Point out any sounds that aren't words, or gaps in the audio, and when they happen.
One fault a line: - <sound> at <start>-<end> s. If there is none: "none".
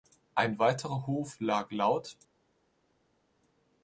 none